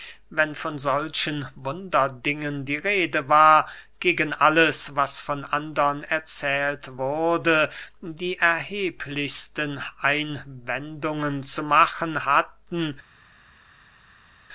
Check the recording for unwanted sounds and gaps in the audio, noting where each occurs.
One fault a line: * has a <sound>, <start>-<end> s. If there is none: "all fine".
all fine